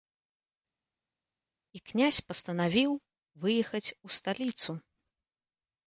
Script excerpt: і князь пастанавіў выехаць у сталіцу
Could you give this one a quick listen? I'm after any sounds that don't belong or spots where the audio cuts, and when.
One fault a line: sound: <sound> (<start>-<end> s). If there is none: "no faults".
no faults